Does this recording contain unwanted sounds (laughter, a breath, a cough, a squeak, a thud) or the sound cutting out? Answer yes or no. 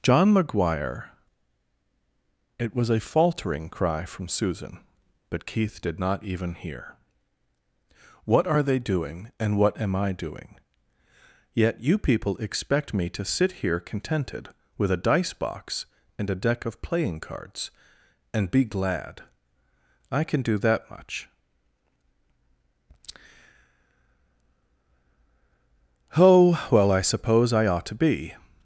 no